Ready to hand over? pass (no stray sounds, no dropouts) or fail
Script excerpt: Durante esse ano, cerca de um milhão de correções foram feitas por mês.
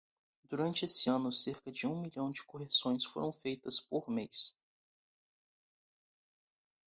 pass